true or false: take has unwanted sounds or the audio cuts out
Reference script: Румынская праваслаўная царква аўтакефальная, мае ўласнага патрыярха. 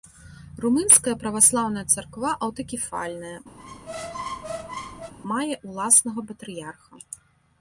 true